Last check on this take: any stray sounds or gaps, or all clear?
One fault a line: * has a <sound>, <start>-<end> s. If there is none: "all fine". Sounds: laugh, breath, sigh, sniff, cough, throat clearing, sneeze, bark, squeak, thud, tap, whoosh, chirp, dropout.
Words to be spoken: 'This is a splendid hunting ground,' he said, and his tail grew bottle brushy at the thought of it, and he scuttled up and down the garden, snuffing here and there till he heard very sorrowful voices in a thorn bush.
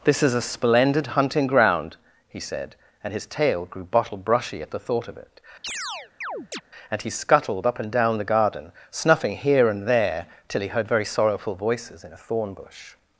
* has a chirp, 5.6-6.6 s